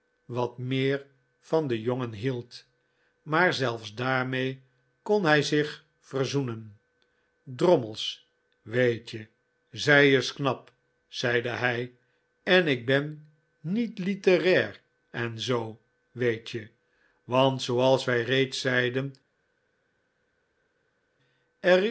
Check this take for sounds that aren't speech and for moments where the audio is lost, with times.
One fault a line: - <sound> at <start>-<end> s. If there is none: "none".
none